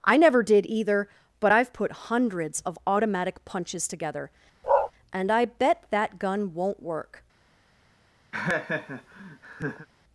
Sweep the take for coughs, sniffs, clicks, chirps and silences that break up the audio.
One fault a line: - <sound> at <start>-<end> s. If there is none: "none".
- bark at 4.6-4.9 s
- laugh at 8.3-9.9 s